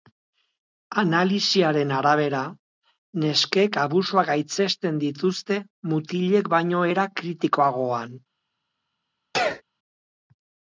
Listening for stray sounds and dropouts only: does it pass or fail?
fail